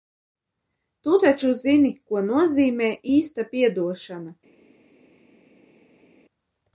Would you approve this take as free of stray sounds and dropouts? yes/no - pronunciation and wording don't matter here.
yes